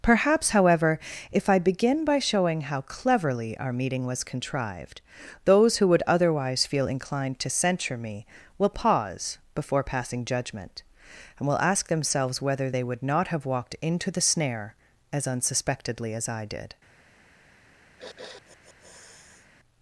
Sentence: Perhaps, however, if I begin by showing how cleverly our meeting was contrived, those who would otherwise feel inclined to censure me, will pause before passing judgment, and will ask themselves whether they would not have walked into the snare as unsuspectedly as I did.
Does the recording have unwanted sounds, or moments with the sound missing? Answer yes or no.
yes